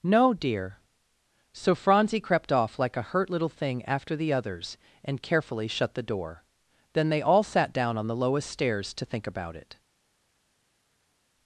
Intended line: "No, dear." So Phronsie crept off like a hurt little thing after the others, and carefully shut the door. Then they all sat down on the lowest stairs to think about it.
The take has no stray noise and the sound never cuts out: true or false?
true